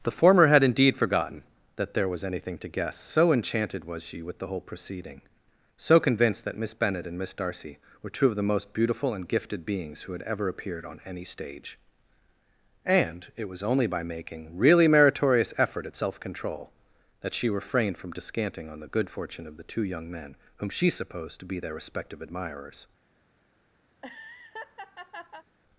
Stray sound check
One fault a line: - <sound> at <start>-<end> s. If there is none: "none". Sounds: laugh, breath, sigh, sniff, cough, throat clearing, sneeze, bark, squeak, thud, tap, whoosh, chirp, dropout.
- laugh at 23.9-25.5 s